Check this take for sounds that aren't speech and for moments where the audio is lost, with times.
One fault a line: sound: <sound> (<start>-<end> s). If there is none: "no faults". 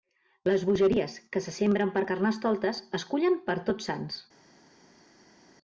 no faults